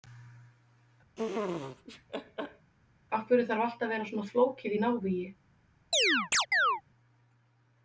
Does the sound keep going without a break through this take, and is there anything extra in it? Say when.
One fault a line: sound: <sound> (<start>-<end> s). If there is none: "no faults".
sound: laugh (1.2-2.7 s)
sound: chirp (5.9-6.8 s)